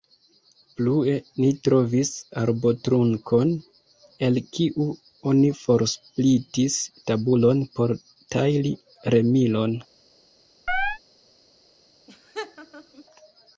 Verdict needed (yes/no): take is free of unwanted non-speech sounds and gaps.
no